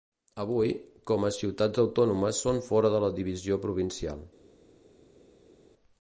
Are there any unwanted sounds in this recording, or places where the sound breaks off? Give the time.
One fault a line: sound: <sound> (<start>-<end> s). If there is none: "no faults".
no faults